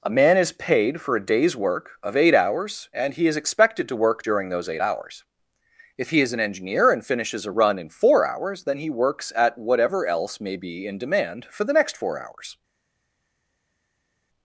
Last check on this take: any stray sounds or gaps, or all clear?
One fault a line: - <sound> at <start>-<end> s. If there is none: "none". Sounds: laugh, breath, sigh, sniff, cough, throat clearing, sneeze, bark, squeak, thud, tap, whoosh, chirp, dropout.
none